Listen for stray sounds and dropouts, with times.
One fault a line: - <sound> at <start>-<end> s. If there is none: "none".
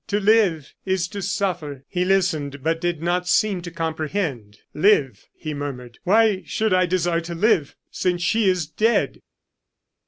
none